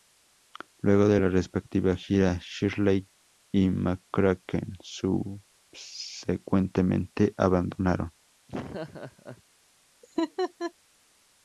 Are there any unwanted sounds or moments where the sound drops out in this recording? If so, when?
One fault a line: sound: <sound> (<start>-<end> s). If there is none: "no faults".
sound: laugh (8.5-9.4 s)
sound: laugh (10.0-10.7 s)